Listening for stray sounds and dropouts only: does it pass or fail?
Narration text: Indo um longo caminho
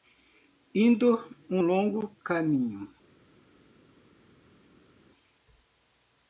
pass